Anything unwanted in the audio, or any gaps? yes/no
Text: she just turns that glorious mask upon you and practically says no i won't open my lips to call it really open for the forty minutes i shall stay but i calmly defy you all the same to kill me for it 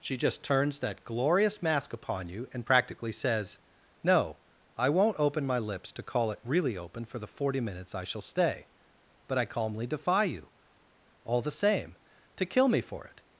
no